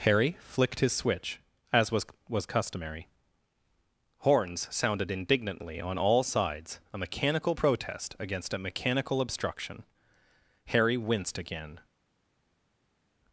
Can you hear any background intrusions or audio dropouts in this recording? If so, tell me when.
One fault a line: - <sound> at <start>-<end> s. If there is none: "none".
none